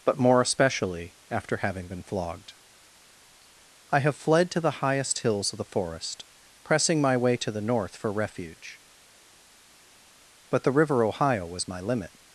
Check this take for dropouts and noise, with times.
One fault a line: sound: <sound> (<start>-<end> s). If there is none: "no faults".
no faults